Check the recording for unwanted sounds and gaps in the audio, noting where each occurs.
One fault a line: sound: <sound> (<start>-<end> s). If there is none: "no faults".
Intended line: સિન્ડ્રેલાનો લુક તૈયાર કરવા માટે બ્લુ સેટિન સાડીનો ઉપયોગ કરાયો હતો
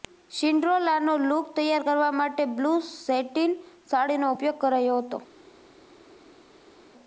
no faults